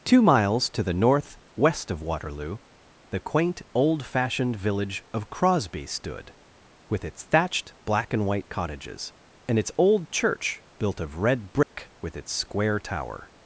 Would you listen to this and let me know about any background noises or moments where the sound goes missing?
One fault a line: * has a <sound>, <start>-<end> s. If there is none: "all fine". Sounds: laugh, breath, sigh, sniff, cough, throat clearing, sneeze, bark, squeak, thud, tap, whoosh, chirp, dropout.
* has a dropout, 11.6-11.7 s